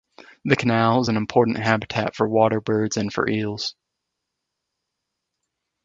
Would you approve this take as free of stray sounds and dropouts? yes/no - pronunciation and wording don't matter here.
yes